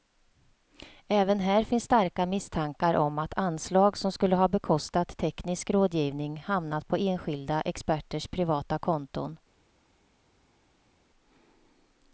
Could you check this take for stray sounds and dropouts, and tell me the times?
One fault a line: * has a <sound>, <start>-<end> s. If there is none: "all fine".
all fine